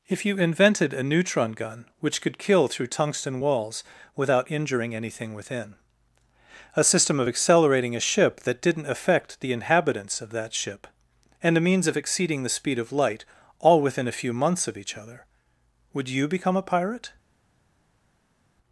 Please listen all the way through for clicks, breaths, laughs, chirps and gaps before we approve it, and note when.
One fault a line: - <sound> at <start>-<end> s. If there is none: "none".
none